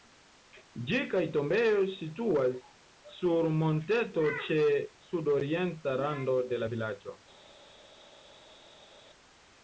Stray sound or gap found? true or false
false